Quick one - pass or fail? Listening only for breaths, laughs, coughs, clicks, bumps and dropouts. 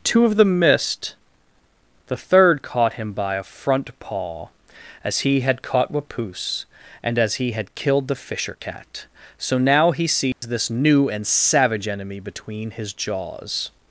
fail